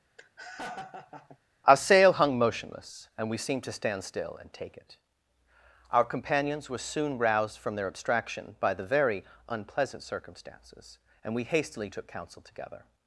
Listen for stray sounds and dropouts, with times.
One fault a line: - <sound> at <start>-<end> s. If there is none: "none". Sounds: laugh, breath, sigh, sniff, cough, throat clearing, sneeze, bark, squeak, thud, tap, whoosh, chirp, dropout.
- laugh at 0.2-1.4 s